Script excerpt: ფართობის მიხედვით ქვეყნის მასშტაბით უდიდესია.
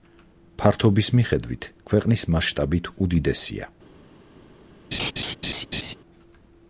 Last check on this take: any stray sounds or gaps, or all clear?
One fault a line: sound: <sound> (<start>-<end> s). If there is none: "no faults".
sound: laugh (4.9-5.9 s)